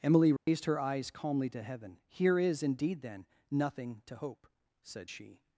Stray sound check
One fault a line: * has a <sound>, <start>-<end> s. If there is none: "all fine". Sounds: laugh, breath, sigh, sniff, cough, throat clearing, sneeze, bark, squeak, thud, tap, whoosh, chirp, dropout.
* has a dropout, 0.4-0.5 s